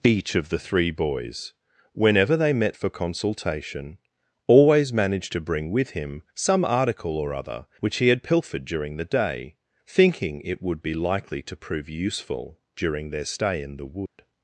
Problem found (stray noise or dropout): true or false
true